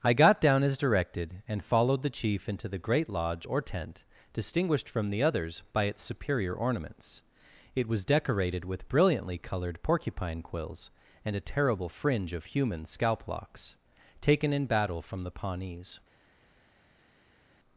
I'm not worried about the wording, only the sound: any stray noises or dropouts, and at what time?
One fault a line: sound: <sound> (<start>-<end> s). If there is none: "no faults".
no faults